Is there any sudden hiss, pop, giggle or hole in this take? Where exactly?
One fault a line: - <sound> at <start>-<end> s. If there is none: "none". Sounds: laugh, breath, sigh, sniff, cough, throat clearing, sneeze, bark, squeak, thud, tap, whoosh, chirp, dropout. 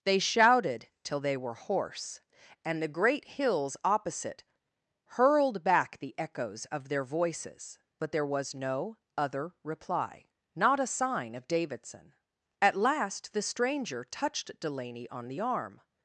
none